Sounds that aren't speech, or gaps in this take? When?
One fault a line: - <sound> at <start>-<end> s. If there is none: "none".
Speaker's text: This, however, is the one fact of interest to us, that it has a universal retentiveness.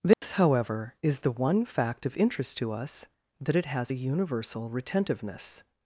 - dropout at 0.1-0.2 s